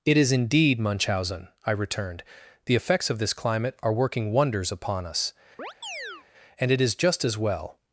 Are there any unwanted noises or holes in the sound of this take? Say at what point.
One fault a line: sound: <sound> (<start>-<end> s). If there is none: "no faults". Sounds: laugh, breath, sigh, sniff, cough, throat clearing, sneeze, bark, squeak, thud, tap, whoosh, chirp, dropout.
sound: chirp (5.6-6.3 s)